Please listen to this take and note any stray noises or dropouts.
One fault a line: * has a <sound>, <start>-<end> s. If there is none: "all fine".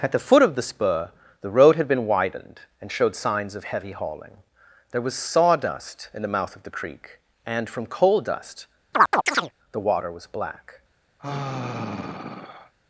* has a chirp, 8.9-9.5 s
* has a sigh, 11.2-12.7 s